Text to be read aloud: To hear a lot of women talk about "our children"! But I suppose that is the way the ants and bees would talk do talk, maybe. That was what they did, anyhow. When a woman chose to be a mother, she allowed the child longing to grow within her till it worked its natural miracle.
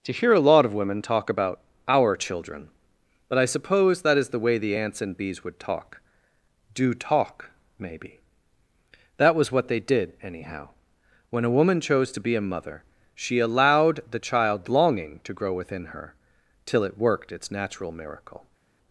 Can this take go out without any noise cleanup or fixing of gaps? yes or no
yes